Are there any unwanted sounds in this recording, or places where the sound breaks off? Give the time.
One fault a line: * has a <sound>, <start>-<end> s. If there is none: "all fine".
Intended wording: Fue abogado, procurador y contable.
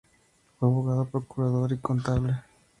all fine